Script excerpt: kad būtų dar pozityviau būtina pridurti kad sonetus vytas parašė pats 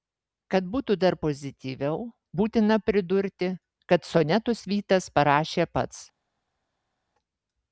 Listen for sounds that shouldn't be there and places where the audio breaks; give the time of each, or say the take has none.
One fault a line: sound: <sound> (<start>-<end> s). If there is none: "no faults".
no faults